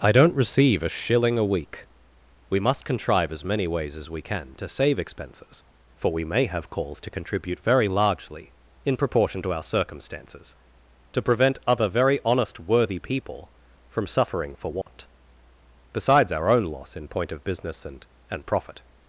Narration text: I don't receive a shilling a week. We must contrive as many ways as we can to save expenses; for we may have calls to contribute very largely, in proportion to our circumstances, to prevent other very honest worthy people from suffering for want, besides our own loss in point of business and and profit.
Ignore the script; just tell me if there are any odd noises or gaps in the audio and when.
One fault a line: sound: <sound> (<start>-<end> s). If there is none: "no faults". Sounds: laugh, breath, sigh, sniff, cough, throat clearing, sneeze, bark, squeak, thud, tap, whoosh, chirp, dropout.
sound: dropout (14.8-14.9 s)